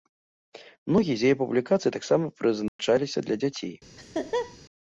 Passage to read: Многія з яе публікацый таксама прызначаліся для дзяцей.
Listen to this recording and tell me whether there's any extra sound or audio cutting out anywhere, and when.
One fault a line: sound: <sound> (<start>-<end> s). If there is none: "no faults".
sound: dropout (2.7-2.8 s)
sound: laugh (4.0-4.6 s)